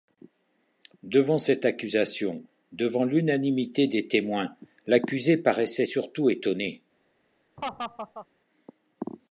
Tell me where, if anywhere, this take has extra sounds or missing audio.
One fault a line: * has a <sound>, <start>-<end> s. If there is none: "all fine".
* has a laugh, 7.6-8.3 s